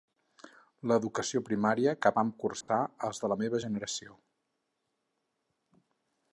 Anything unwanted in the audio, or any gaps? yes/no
yes